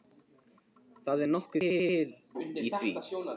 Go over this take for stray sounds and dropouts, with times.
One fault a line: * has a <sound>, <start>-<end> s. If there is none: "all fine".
all fine